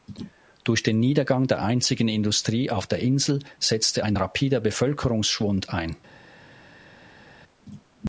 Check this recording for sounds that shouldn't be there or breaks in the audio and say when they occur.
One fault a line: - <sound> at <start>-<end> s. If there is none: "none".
none